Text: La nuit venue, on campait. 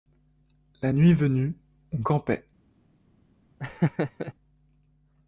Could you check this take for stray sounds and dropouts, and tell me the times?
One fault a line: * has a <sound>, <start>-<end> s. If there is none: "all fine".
* has a laugh, 3.6-4.3 s